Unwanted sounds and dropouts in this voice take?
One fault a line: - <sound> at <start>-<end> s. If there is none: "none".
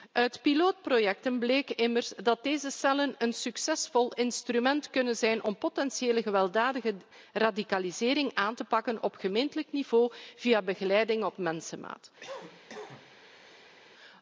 - cough at 12.2-13.7 s